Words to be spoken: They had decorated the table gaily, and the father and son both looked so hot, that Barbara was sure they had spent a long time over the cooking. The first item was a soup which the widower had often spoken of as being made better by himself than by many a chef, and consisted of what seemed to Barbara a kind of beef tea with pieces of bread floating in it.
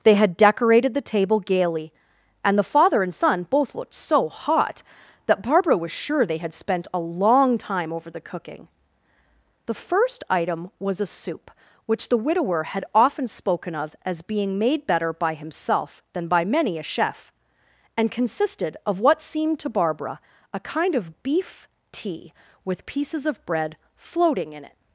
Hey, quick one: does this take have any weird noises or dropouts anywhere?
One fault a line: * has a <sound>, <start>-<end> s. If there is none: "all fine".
all fine